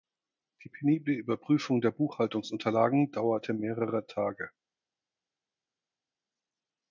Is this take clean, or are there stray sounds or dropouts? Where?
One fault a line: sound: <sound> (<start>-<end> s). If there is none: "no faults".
no faults